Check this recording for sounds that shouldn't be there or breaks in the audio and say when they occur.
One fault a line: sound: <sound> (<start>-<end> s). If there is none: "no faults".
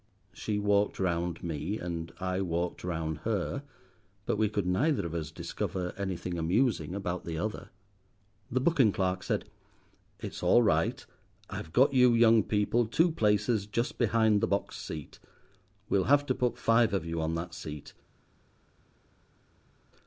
no faults